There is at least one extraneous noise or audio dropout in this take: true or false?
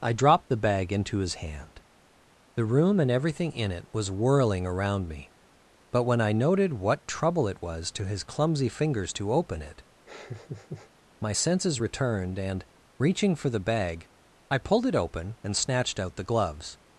true